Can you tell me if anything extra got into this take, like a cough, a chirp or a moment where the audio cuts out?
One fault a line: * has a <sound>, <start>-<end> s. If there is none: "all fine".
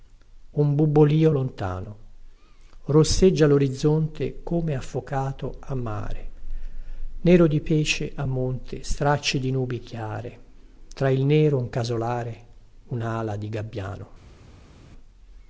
all fine